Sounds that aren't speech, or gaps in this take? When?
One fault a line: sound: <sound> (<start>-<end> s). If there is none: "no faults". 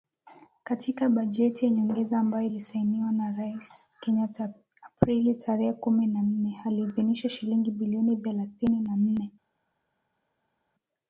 no faults